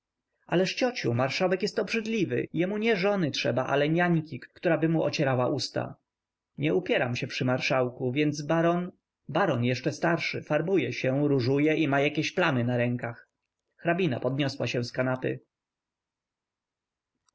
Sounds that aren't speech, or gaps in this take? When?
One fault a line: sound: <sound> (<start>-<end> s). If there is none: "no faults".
no faults